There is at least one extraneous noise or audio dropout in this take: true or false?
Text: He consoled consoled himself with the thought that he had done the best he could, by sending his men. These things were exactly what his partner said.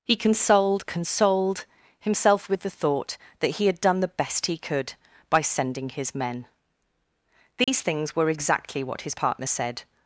true